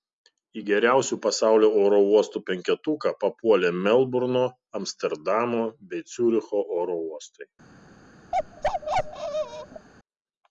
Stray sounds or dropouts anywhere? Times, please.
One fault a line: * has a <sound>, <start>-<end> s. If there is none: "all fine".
* has a bark, 8.3-9.9 s